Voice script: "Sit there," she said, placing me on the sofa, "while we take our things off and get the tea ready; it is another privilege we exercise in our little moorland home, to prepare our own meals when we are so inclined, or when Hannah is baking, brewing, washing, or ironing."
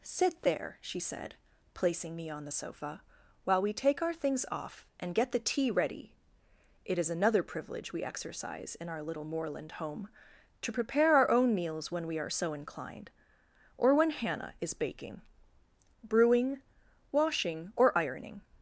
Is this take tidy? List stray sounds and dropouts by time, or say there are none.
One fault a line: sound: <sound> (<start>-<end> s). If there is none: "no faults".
no faults